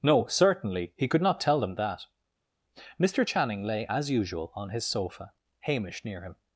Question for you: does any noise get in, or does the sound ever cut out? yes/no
no